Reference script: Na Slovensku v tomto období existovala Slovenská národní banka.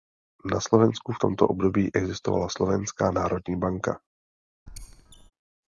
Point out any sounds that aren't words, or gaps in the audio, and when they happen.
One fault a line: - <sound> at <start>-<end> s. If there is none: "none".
- squeak at 4.7-5.3 s